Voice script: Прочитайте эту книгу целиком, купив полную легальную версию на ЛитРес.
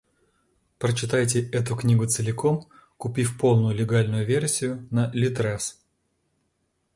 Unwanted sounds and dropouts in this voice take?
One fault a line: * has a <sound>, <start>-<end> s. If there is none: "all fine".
all fine